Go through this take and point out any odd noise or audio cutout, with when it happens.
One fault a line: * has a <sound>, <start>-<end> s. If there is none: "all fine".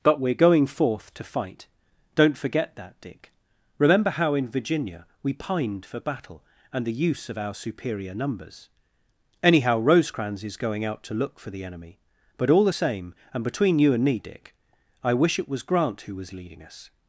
all fine